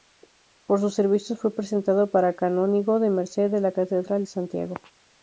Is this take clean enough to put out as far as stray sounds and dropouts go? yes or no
yes